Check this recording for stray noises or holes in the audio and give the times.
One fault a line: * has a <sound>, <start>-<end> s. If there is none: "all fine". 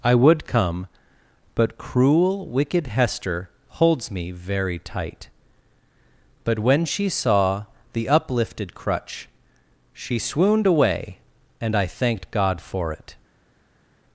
all fine